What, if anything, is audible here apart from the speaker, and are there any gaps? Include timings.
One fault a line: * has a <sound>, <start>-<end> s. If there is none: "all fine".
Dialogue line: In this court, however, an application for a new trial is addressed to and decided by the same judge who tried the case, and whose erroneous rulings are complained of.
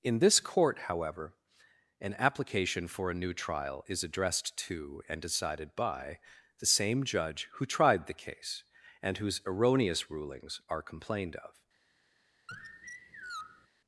* has a sigh, 12.5-13.7 s